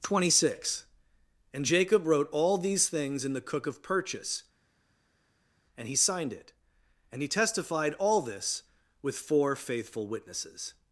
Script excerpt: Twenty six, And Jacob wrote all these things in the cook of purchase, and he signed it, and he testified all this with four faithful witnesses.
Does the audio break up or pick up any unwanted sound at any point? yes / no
no